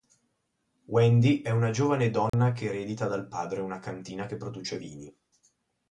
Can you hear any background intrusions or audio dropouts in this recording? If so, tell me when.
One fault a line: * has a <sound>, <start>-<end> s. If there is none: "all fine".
* has a dropout, 2.3-2.3 s